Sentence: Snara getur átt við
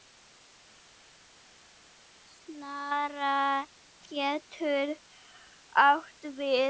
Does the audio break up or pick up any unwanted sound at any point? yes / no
no